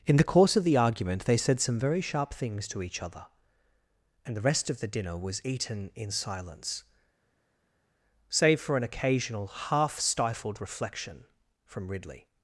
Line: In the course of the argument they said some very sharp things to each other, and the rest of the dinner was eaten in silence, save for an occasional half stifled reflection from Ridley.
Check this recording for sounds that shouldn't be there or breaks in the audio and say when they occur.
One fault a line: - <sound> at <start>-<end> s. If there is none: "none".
none